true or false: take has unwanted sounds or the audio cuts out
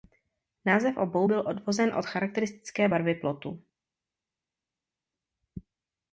false